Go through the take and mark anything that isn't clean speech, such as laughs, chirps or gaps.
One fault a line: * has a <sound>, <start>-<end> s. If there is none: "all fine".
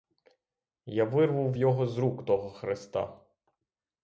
all fine